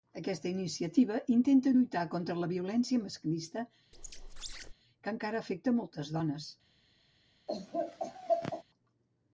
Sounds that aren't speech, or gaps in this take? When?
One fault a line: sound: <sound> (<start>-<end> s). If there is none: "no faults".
sound: squeak (3.9-4.7 s)
sound: laugh (7.5-8.6 s)